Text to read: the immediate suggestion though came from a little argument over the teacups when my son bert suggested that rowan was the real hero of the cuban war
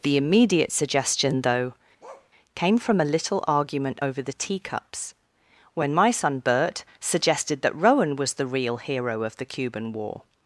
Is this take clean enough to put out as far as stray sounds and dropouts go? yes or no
no